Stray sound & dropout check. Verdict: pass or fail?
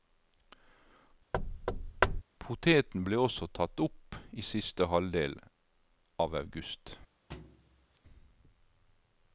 fail